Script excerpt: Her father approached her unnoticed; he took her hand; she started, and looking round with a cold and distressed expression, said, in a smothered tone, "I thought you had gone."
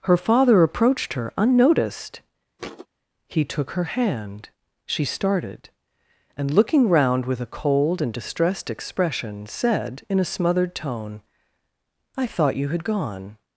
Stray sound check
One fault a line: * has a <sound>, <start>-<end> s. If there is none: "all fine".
* has a thud, 2.6-2.9 s